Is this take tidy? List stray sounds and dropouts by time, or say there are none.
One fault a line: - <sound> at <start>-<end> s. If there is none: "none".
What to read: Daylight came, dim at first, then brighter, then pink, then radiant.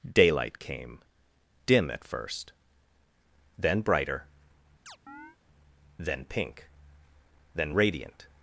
- chirp at 4.9-5.4 s